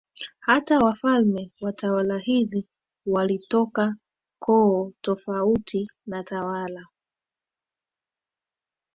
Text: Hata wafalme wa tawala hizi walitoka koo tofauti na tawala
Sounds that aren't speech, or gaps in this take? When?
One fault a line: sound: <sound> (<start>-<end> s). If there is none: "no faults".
no faults